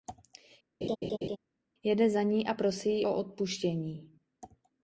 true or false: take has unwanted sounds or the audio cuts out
true